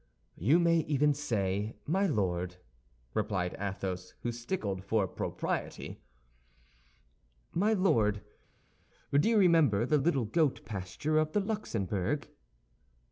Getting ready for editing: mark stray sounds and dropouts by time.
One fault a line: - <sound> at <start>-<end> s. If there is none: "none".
none